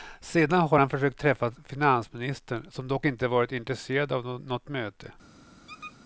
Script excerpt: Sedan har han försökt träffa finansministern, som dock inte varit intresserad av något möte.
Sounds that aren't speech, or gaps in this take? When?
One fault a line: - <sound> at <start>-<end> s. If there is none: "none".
- squeak at 5.7-6.0 s